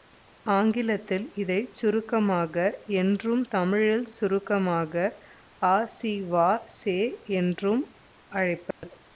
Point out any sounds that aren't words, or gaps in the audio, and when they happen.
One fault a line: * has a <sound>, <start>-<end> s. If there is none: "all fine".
* has a dropout, 8.7-8.8 s